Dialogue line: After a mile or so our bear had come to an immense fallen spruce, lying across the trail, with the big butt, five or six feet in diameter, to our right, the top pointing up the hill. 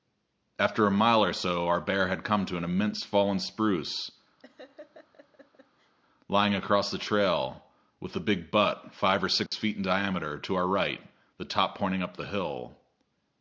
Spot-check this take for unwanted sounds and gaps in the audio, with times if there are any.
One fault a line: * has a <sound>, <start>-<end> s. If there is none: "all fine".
* has a laugh, 4.4-5.9 s
* has a dropout, 9.5-9.5 s